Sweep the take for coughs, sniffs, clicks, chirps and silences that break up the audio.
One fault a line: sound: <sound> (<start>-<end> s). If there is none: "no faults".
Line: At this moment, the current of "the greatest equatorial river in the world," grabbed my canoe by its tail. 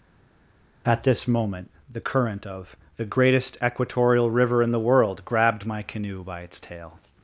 no faults